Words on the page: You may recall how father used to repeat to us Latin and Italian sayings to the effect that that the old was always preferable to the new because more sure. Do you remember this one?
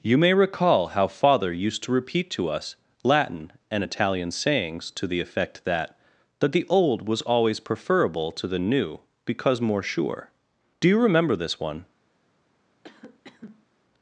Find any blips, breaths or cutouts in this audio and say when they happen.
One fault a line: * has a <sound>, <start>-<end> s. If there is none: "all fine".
* has a cough, 12.8-13.7 s